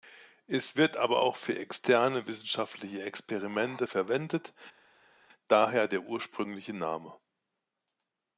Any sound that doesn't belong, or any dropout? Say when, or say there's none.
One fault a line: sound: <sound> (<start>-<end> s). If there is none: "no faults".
no faults